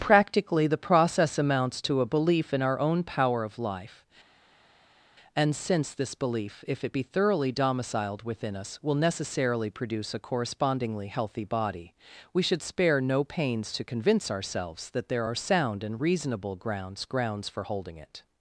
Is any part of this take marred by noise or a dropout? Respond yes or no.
no